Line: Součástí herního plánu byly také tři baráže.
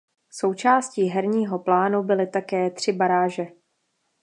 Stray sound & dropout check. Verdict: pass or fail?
pass